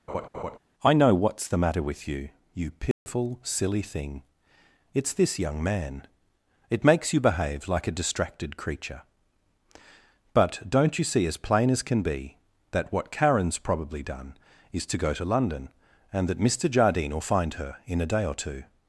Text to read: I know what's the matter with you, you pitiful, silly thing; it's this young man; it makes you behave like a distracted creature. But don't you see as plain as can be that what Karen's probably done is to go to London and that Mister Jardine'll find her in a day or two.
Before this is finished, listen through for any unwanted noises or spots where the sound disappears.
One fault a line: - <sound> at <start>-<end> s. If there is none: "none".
- laugh at 0.1-0.6 s
- dropout at 2.9-3.1 s